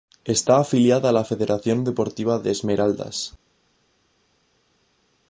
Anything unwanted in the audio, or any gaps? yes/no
no